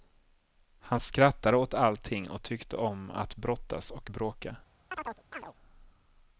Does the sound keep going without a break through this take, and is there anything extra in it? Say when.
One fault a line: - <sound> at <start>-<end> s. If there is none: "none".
- chirp at 4.9-5.5 s